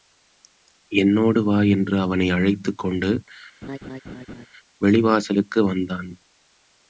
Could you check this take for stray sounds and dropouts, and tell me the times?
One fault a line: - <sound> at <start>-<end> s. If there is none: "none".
- laugh at 3.6-4.5 s